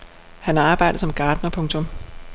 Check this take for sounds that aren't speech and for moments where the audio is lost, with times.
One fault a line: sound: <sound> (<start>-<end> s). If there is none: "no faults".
no faults